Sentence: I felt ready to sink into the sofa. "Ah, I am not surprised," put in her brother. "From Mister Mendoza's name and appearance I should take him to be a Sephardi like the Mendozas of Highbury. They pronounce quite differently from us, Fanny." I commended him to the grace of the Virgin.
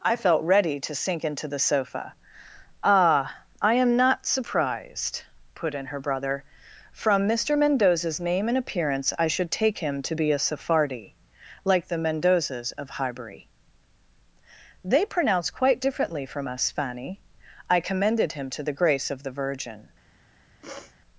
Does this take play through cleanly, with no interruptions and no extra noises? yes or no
no